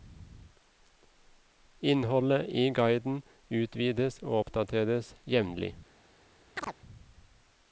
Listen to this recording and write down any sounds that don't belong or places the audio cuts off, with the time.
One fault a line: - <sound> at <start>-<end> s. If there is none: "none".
- chirp at 6.6-6.8 s